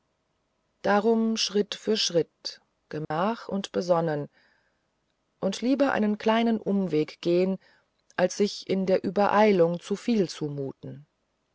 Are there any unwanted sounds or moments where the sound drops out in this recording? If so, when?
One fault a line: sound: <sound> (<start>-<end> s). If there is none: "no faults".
sound: dropout (3.0-3.1 s)